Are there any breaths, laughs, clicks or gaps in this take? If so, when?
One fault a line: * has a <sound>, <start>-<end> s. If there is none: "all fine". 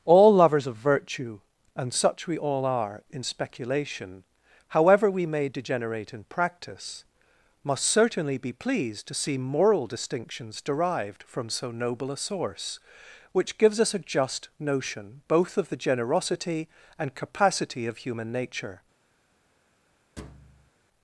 * has a thud, 20.2-20.7 s